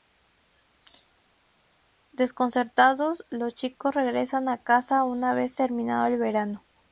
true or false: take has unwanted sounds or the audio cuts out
false